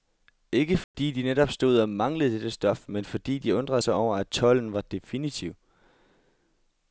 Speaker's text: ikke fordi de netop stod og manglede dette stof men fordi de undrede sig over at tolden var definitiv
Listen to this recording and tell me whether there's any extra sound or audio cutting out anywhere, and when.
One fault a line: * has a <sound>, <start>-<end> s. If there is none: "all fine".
* has a dropout, 0.8-0.9 s